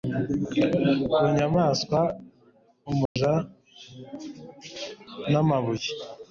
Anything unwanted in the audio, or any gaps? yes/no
yes